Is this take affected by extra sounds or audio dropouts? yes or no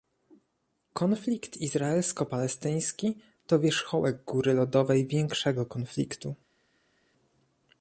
no